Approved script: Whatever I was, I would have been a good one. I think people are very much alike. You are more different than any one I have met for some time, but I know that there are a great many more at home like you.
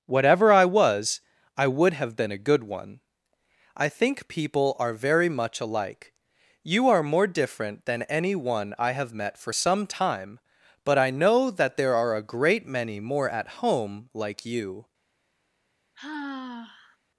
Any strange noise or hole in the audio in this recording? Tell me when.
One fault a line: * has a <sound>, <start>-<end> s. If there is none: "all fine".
* has a sigh, 16.0-17.0 s